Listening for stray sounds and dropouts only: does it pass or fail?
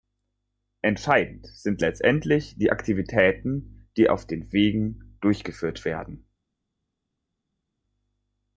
pass